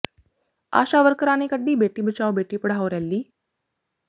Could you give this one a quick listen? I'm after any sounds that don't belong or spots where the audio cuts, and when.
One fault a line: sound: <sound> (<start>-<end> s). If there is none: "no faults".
no faults